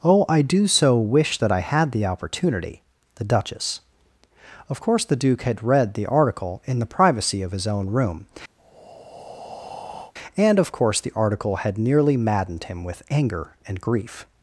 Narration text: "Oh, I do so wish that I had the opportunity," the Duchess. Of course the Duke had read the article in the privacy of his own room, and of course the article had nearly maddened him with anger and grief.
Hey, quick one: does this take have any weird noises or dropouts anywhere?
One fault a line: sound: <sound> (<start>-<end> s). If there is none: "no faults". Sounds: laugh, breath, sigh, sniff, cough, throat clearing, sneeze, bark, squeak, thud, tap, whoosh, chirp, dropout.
sound: breath (8.6-10.1 s)